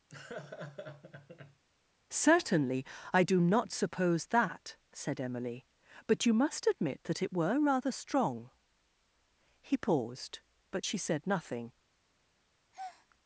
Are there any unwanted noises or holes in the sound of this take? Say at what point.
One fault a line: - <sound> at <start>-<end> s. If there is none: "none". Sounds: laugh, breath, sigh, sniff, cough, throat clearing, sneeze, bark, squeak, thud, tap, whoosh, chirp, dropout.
- laugh at 0.1-1.6 s
- breath at 12.7-13.1 s